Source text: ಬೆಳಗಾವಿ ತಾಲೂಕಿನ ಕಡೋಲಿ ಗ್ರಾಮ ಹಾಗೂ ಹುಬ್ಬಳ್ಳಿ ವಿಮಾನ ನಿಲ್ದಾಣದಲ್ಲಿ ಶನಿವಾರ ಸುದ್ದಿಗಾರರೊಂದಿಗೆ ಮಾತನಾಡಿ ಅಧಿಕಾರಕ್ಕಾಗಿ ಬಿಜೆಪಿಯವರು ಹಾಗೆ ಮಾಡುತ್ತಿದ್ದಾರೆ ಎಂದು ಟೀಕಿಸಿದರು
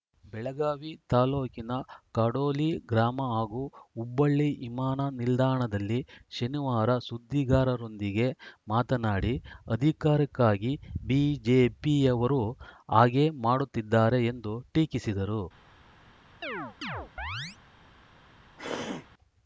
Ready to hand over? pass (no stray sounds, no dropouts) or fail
fail